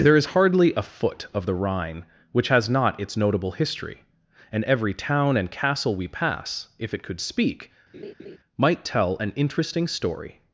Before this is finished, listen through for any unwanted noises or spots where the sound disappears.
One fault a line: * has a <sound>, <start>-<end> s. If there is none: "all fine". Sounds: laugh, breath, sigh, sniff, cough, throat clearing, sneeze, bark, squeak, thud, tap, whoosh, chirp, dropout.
* has a laugh, 7.9-8.4 s